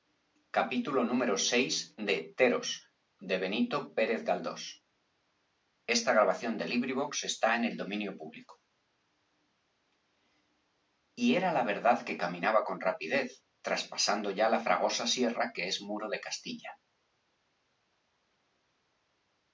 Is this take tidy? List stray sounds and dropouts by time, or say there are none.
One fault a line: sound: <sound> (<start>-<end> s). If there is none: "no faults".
no faults